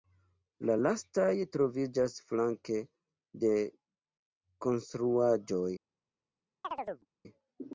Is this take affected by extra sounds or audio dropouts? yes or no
yes